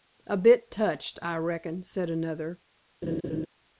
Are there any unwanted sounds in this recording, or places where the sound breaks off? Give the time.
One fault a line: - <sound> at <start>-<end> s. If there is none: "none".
- laugh at 3.0-3.5 s